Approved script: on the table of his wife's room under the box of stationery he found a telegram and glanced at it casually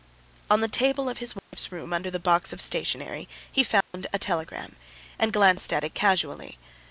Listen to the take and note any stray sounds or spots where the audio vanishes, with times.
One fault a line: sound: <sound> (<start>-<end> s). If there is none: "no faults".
sound: dropout (1.4-1.5 s)
sound: dropout (3.8-3.9 s)